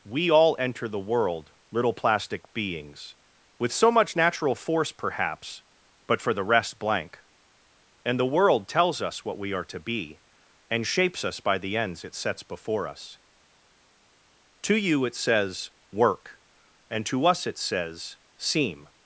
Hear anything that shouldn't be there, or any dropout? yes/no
no